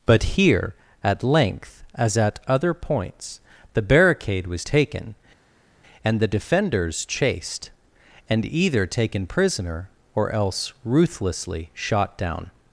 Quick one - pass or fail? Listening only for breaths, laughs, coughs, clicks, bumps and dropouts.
pass